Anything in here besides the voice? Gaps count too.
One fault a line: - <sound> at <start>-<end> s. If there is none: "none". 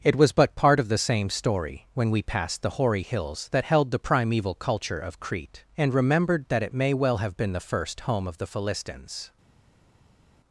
none